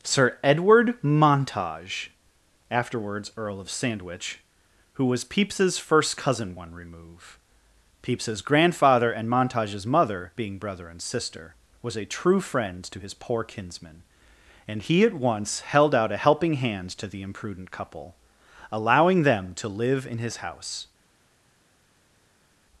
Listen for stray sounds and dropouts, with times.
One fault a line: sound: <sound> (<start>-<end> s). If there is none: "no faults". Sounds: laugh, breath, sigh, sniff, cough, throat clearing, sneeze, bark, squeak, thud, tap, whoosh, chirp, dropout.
no faults